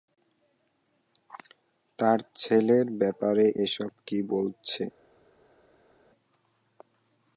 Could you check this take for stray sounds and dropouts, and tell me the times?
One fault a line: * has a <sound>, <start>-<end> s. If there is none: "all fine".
all fine